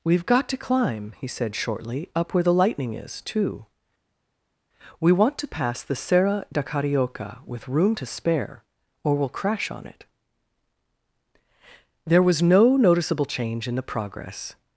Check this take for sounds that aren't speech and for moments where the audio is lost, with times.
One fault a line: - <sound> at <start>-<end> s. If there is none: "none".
none